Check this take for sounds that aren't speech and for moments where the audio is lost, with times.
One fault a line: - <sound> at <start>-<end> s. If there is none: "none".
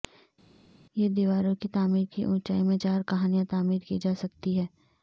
none